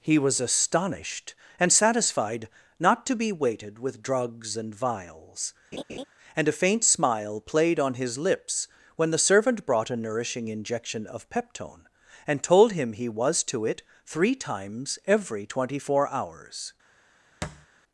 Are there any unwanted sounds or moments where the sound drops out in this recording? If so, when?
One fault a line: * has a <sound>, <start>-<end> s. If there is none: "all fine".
* has a laugh, 5.7-6.0 s
* has a thud, 17.4-17.7 s